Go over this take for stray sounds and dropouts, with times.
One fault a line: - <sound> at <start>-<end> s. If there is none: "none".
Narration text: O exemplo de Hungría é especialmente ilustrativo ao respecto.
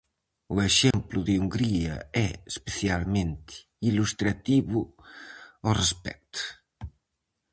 - dropout at 0.9-0.9 s